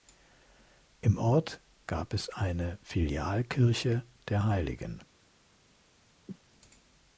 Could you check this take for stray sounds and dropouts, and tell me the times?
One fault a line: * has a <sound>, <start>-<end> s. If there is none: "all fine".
* has a cough, 6.3-6.4 s